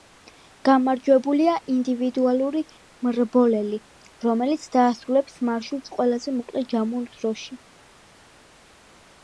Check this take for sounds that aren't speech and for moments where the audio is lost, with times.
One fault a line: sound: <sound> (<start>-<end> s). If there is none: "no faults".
no faults